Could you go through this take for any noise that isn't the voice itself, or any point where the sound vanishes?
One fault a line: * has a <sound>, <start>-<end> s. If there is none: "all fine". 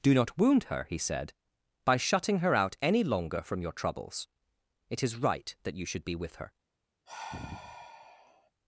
* has a sigh, 7.1-8.5 s